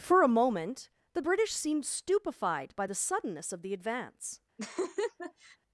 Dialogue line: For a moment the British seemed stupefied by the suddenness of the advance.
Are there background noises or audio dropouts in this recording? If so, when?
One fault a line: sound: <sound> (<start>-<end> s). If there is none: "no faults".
sound: laugh (4.6-5.6 s)